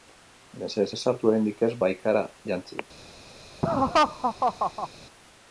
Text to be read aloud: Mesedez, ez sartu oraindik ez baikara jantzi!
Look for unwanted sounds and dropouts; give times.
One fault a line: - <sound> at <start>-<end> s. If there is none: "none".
- laugh at 3.6-4.9 s